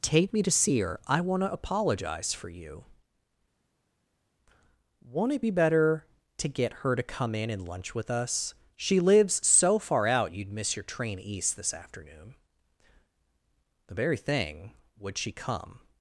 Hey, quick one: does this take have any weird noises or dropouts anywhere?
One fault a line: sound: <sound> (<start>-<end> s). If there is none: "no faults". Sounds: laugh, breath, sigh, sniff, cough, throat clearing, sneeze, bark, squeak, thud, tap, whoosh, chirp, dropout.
no faults